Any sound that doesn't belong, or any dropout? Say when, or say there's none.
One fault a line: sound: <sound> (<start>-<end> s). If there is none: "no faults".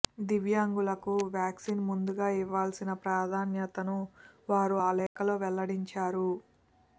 sound: dropout (5.1-5.2 s)